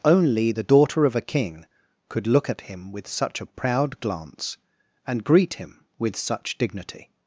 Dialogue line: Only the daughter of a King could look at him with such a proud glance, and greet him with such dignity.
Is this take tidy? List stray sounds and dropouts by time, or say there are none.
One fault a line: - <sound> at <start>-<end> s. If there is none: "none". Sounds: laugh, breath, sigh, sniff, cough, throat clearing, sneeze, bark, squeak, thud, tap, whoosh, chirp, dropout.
none